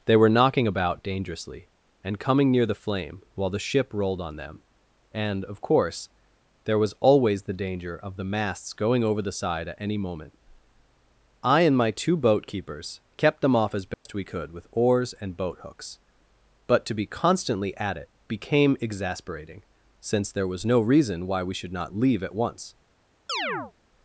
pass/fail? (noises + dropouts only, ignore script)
fail